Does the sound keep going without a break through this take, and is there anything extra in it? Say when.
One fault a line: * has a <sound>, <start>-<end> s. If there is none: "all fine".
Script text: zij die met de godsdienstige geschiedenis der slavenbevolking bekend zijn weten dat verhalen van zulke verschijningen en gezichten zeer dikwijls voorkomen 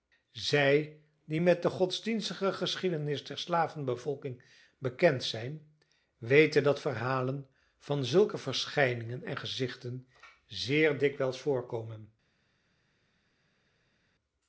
all fine